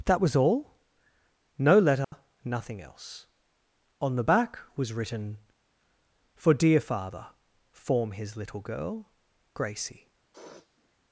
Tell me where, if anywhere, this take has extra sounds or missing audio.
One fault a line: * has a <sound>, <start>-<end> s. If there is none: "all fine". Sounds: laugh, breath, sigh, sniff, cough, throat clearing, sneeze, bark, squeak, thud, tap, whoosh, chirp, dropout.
* has a dropout, 2.0-2.1 s
* has a sniff, 10.3-11.0 s